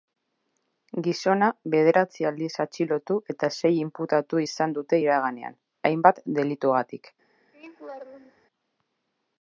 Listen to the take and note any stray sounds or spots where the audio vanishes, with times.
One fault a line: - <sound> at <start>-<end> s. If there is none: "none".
- laugh at 7.5-8.5 s